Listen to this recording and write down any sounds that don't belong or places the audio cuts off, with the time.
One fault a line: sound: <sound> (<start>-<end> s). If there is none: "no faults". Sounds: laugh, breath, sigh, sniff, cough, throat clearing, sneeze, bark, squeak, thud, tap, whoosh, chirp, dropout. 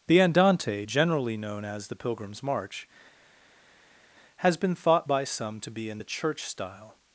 no faults